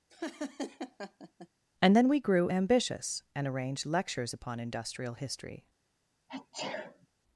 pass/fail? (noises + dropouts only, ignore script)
fail